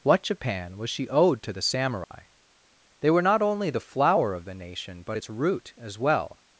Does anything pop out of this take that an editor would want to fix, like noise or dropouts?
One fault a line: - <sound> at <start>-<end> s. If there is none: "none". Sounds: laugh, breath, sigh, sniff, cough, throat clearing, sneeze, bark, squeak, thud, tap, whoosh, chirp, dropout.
- dropout at 2.0-2.1 s